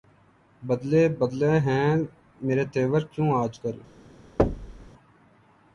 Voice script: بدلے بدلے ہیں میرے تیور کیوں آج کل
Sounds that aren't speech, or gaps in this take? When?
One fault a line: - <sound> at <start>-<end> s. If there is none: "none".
- thud at 4.4-4.9 s